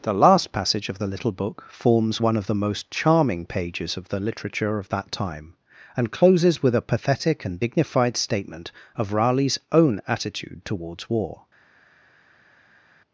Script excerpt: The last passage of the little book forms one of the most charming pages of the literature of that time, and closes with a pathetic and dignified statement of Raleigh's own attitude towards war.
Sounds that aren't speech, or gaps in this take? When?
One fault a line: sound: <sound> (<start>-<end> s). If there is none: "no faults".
no faults